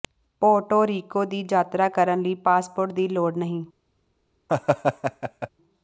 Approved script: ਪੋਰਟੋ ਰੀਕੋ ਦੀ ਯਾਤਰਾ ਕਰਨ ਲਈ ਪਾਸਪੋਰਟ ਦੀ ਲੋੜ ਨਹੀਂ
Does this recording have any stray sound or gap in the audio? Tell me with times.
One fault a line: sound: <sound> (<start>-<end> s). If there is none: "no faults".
sound: laugh (4.5-5.5 s)